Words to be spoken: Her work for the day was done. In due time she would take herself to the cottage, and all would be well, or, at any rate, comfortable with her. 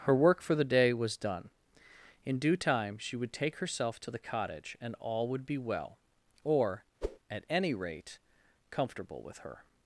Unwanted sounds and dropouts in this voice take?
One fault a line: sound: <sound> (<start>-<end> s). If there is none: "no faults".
sound: whoosh (7.0-7.2 s)